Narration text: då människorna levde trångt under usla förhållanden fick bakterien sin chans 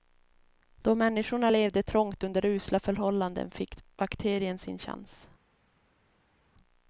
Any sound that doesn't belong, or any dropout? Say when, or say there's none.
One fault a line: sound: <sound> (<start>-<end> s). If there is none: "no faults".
no faults